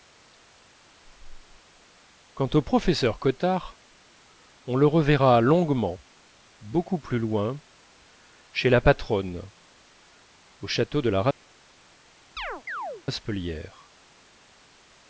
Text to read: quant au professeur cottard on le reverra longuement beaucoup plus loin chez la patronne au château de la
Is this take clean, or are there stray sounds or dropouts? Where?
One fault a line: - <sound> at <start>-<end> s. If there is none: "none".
- chirp at 12.4-13.0 s